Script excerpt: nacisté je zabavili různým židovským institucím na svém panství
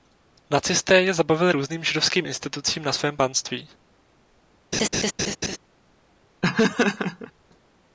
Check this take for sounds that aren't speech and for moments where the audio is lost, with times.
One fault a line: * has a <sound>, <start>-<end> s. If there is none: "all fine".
* has a laugh, 4.7-5.6 s
* has a laugh, 6.4-7.3 s